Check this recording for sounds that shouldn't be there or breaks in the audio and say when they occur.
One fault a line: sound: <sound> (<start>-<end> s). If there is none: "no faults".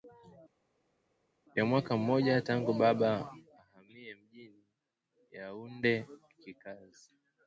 no faults